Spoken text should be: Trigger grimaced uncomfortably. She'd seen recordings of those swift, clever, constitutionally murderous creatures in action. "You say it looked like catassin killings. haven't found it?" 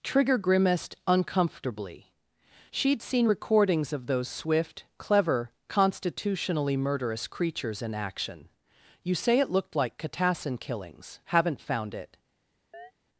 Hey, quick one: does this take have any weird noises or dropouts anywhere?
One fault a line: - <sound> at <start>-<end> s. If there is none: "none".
- chirp at 12.7-12.9 s